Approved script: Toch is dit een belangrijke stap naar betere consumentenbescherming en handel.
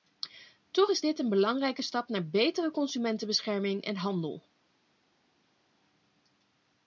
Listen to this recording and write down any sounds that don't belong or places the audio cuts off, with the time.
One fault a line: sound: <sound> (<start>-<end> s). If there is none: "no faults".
no faults